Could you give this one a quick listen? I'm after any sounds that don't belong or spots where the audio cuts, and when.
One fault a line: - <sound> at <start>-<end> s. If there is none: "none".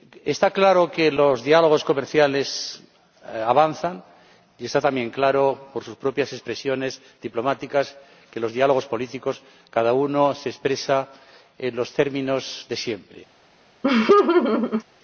- laugh at 13.8-14.8 s